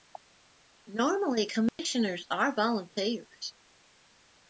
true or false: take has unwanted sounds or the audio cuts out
true